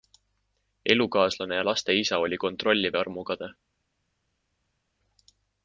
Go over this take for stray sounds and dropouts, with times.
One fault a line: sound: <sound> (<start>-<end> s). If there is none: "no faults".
no faults